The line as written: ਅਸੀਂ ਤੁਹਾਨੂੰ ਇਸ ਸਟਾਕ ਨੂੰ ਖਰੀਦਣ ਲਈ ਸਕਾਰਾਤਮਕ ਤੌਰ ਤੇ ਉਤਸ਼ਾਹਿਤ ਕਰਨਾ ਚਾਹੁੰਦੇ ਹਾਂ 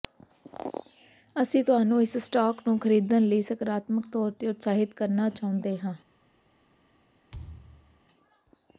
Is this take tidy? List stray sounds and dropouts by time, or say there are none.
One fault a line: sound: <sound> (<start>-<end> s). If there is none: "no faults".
sound: thud (7.3-8.0 s)